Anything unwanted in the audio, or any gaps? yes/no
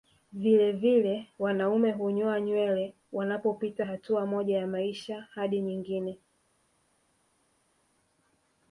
no